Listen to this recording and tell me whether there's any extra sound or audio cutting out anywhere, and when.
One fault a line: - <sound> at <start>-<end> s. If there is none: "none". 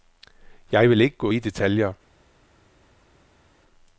none